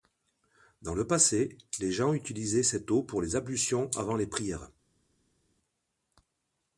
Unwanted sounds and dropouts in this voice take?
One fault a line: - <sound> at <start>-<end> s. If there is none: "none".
none